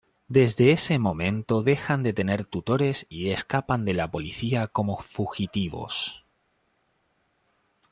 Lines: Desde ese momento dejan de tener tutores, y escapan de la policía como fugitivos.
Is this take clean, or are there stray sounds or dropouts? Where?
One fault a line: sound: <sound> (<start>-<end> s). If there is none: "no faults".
no faults